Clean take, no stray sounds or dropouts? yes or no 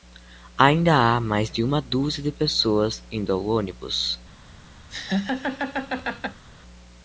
no